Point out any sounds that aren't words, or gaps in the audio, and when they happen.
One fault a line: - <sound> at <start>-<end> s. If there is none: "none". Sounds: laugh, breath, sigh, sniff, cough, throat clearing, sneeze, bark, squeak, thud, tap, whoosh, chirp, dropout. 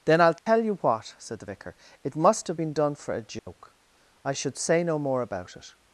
- dropout at 0.4-0.5 s
- dropout at 3.4-3.5 s